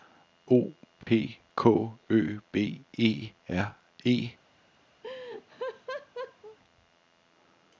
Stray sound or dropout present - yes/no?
yes